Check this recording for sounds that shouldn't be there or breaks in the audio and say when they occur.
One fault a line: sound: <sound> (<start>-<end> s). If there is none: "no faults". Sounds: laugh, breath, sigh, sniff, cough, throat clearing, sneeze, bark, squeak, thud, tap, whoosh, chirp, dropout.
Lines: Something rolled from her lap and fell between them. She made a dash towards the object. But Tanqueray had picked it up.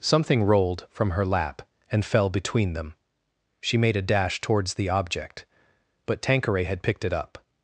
no faults